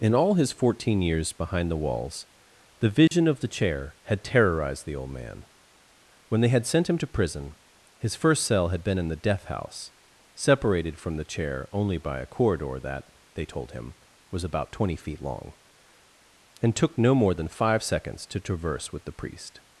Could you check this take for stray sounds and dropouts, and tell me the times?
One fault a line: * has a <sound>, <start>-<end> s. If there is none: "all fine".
* has a dropout, 3.1-3.1 s